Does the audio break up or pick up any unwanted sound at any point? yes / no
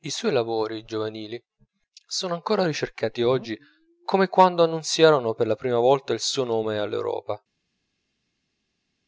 no